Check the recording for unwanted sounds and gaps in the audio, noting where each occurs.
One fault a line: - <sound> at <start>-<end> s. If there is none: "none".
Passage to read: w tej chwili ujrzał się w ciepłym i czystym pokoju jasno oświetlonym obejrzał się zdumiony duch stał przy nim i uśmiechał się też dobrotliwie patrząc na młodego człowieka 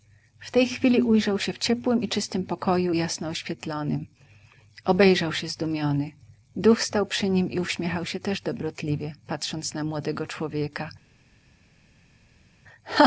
none